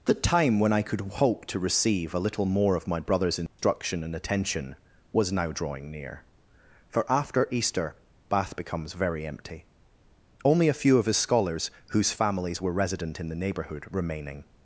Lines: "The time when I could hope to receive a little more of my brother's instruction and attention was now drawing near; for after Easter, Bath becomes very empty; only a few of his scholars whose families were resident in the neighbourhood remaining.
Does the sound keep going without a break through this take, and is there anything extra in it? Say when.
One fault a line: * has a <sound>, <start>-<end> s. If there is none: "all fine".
* has a dropout, 3.5-3.6 s